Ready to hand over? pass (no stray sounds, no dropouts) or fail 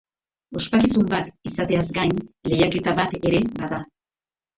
pass